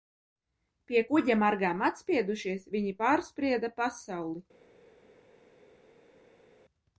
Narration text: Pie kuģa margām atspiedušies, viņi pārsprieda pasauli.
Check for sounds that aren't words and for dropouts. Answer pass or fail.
pass